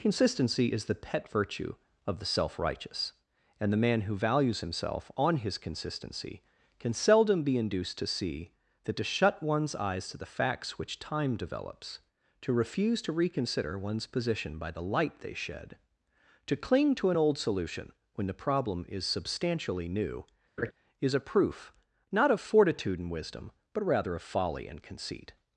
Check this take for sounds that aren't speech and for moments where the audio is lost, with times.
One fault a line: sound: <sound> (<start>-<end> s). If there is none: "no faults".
sound: laugh (20.6-20.7 s)